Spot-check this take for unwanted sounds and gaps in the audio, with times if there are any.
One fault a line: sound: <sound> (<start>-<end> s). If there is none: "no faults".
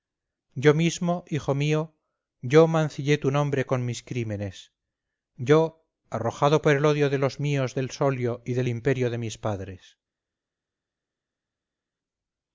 no faults